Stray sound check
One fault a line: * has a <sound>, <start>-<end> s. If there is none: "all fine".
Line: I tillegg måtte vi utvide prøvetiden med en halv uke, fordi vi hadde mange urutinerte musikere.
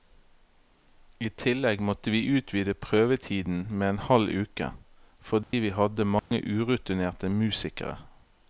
* has a dropout, 5.4-5.5 s
* has a dropout, 6.2-6.3 s